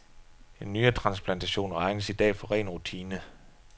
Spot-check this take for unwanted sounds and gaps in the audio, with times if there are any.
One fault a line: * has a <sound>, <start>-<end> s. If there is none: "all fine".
all fine